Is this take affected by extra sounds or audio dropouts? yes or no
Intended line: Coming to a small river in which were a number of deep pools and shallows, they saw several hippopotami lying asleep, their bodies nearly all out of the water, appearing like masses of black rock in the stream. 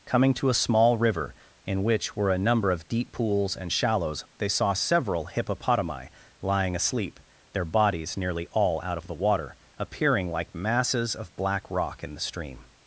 no